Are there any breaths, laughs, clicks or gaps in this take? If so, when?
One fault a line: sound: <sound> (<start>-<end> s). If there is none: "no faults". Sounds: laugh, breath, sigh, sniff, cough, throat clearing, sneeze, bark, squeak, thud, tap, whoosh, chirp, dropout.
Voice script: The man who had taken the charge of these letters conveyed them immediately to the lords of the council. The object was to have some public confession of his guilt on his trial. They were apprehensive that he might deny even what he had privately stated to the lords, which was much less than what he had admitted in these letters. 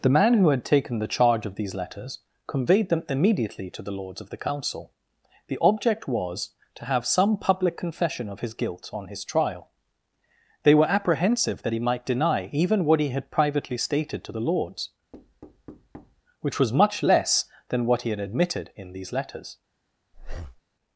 sound: thud (15.1-16.2 s)
sound: breath (20.1-20.6 s)